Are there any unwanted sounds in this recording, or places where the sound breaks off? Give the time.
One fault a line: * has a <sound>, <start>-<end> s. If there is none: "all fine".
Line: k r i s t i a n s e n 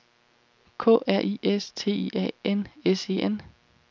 all fine